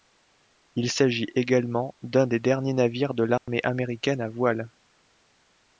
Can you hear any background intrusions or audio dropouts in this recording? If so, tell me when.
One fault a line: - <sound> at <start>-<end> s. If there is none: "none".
- dropout at 3.4-3.5 s